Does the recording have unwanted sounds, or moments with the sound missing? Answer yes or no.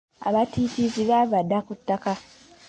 no